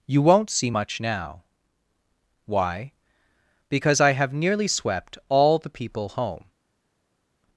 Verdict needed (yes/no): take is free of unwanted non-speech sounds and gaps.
yes